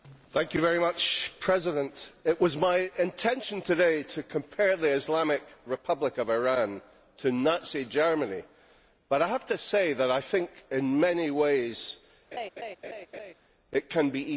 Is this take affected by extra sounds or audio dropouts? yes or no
yes